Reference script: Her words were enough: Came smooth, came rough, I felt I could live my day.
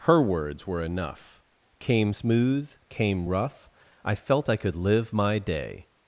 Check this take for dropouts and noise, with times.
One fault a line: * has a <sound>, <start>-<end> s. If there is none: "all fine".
all fine